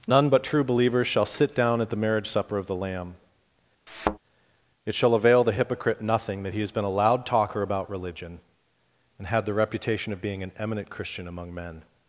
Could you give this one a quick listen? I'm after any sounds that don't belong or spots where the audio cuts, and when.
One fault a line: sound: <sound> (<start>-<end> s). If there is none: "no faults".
sound: thud (3.9-4.2 s)